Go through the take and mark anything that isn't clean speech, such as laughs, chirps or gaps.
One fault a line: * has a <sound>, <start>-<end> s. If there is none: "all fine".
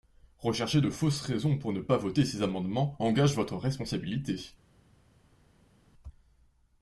all fine